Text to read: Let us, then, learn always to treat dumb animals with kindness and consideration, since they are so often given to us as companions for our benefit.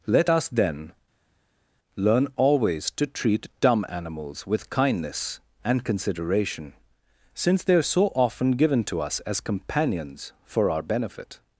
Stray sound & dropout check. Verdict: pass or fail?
pass